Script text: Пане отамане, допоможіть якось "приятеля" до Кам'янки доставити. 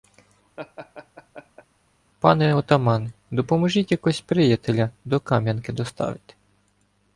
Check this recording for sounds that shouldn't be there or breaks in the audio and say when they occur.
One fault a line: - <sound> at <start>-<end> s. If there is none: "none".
- laugh at 0.6-1.7 s